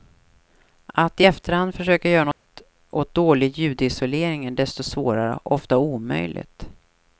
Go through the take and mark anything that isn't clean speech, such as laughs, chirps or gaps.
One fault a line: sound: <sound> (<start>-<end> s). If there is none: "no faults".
sound: dropout (2.3-2.5 s)